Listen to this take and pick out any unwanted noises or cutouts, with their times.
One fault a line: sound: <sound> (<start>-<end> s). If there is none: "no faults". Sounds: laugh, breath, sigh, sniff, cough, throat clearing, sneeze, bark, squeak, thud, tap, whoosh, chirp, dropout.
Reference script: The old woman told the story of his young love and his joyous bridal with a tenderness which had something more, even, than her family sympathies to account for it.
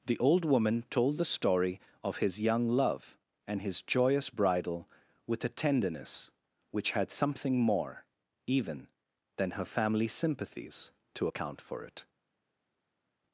no faults